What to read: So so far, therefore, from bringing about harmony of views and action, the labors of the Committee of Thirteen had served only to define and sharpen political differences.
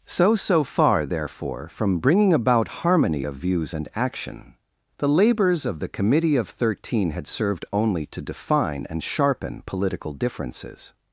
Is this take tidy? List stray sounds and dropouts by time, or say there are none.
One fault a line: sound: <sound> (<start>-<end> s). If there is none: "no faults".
no faults